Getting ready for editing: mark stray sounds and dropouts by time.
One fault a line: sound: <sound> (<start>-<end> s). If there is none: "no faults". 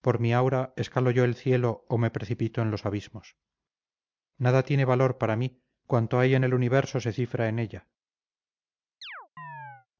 sound: chirp (9.0-9.9 s)